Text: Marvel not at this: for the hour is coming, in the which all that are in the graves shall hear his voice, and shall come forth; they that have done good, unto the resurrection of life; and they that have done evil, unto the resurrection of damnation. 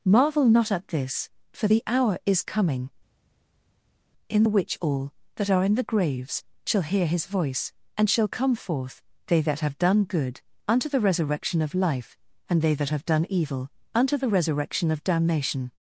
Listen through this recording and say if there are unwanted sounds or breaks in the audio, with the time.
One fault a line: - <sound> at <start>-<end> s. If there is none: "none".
none